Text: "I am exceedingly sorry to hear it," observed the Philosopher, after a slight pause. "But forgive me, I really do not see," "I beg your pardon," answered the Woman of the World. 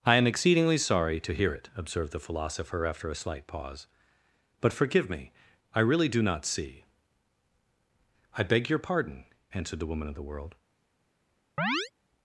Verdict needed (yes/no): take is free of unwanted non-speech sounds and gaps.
no